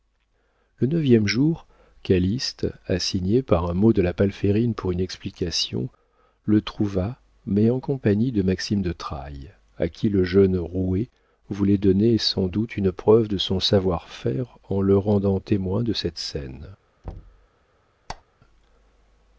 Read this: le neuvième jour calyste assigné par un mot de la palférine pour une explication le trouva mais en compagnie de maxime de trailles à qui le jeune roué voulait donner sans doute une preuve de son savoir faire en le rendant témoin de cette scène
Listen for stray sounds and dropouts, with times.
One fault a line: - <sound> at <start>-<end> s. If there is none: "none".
- thud at 17.0-17.5 s
- squeak at 18.1-18.2 s